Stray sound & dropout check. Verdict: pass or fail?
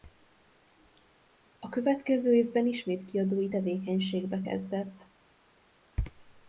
pass